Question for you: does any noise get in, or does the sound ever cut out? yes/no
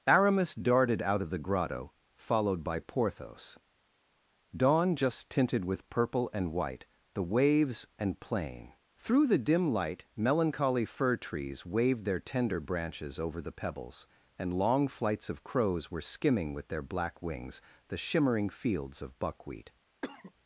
yes